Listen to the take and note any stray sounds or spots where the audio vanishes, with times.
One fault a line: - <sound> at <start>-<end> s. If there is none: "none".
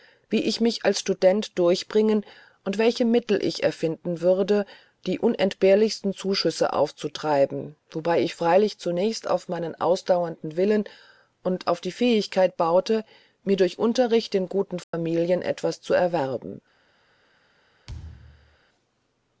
- dropout at 14.8-14.9 s
- thud at 17.9-18.6 s